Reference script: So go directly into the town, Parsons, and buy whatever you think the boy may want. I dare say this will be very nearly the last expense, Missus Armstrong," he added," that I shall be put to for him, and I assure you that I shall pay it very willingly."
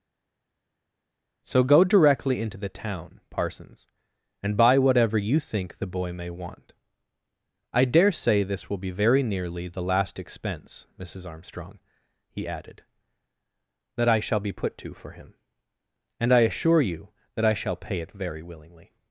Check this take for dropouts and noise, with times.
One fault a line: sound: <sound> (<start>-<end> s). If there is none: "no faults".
no faults